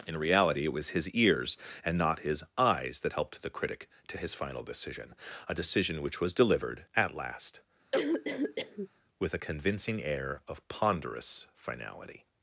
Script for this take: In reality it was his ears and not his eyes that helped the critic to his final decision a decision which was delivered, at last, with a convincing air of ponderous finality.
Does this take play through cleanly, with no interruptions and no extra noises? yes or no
no